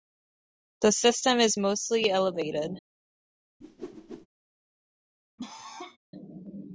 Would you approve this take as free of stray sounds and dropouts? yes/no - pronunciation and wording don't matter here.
no